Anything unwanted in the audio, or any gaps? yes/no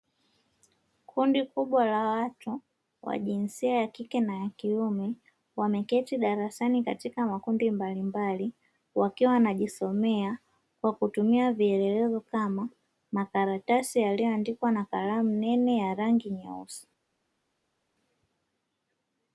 no